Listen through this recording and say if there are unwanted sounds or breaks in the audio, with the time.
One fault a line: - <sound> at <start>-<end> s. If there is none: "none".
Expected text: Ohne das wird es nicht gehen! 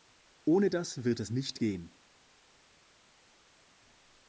none